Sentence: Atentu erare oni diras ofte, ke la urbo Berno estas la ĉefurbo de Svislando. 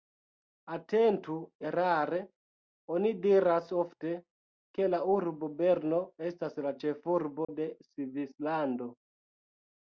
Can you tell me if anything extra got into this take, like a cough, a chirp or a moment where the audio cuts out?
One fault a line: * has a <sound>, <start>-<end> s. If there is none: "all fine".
* has a dropout, 7.4-7.5 s